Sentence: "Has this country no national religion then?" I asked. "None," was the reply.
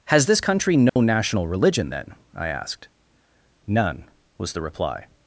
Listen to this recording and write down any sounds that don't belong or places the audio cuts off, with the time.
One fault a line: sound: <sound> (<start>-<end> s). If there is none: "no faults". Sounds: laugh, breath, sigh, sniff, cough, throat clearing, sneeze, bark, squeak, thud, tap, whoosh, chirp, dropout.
sound: dropout (0.9-1.0 s)